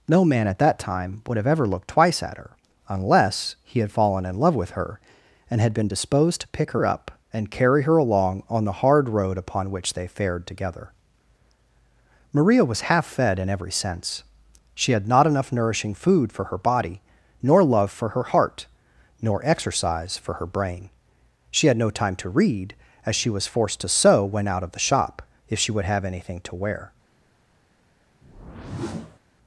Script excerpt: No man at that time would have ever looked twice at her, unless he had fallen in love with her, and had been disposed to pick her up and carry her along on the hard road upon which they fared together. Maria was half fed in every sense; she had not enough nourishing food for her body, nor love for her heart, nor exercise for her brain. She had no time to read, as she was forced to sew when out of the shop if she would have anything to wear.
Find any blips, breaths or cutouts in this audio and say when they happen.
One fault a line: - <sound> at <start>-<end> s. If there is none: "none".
- whoosh at 28.2-29.2 s